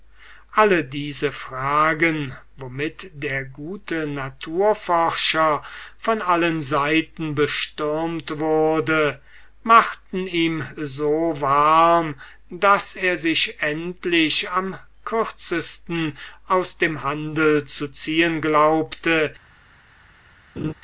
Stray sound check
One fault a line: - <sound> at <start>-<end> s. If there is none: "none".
- laugh at 20.6-20.7 s